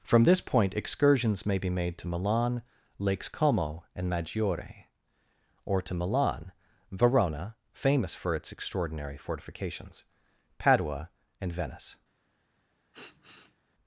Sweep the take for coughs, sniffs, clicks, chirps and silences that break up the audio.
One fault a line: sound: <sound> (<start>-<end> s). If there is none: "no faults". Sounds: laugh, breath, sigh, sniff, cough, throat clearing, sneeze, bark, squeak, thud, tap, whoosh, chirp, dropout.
sound: sniff (12.9-13.6 s)